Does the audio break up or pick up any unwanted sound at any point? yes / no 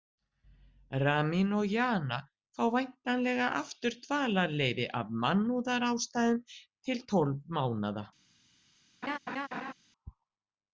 yes